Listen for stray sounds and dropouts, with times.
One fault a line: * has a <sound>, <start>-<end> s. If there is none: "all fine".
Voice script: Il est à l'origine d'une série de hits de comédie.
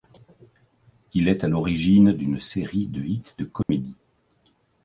* has a dropout, 3.6-3.7 s